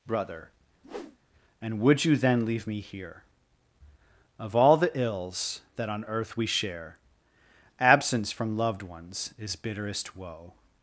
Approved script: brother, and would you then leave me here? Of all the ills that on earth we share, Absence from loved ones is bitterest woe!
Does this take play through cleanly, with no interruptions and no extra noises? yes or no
no